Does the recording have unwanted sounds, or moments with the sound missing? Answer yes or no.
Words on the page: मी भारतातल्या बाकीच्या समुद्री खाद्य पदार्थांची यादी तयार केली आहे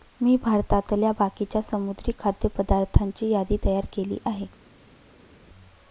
no